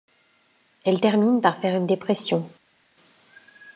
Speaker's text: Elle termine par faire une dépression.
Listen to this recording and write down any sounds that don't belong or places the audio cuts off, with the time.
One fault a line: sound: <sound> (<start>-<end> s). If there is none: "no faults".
no faults